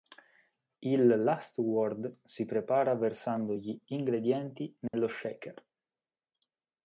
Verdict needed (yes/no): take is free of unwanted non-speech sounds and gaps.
no